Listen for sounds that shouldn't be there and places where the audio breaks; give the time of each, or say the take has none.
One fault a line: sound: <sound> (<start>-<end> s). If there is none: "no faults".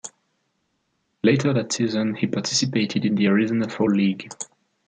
no faults